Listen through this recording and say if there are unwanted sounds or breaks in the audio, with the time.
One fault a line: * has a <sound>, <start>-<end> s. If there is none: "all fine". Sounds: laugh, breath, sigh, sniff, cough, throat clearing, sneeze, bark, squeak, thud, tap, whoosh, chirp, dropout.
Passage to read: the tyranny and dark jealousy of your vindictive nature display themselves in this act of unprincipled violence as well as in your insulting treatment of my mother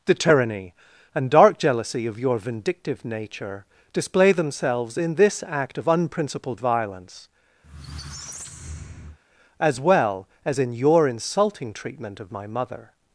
* has a squeak, 7.6-9.2 s